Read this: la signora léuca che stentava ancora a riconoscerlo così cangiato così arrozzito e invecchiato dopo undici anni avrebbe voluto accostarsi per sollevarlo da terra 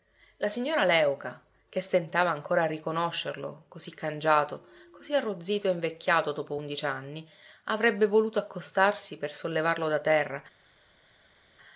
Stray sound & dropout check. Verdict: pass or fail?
pass